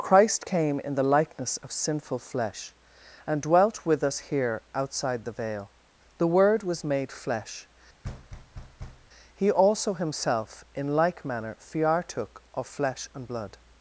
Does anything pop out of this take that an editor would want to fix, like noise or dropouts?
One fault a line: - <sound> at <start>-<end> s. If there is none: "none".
- thud at 8.0-9.1 s